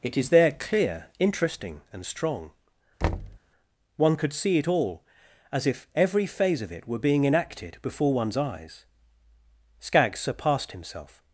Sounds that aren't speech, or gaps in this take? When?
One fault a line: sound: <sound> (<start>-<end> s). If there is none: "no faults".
sound: thud (3.0-3.4 s)